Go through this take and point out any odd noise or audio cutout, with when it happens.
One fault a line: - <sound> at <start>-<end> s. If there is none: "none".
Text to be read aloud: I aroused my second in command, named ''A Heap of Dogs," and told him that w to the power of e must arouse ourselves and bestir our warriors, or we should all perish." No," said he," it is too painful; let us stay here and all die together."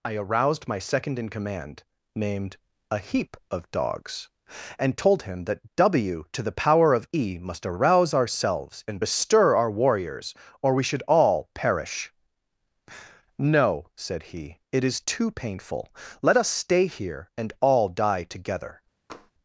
- tap at 19.1-19.3 s